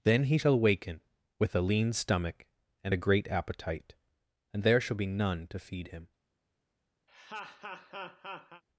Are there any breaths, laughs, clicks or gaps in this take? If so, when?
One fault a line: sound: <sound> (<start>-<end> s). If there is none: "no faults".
sound: laugh (7.1-8.6 s)